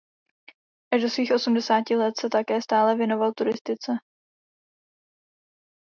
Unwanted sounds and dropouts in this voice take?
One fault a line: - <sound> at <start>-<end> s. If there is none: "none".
none